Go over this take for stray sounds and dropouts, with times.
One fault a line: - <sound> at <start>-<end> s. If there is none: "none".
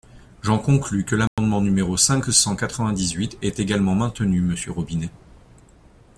- dropout at 1.3-1.4 s